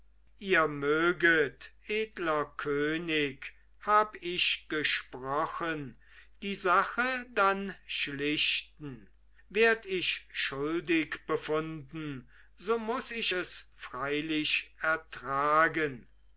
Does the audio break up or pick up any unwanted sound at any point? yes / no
no